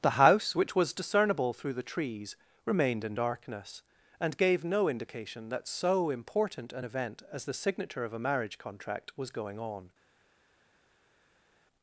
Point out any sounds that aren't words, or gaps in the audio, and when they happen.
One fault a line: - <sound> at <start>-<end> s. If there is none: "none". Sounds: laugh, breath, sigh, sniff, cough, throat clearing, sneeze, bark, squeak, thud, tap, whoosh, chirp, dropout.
none